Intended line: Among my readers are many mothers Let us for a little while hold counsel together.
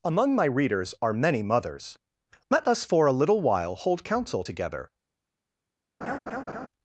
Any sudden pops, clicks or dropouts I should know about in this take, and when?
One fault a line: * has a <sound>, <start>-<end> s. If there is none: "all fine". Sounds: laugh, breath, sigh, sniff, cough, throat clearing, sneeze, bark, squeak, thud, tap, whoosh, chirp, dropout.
* has a laugh, 6.0-6.7 s